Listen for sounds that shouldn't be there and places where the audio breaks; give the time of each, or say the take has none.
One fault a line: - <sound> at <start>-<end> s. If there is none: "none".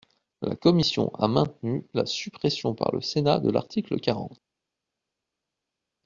none